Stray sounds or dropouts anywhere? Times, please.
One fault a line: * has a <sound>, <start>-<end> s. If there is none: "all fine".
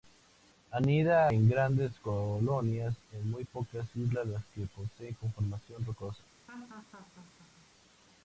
* has a laugh, 6.5-7.7 s